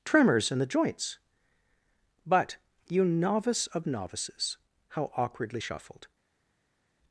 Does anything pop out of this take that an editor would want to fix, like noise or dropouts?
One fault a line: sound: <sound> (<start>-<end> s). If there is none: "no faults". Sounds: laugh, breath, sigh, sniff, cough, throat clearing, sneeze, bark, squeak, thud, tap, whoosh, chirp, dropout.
no faults